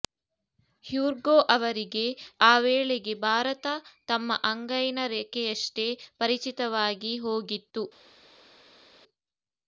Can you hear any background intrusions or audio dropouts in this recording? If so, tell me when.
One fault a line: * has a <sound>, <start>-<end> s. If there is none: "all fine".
all fine